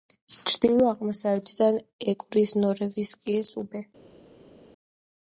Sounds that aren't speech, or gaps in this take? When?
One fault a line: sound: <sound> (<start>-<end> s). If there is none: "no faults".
no faults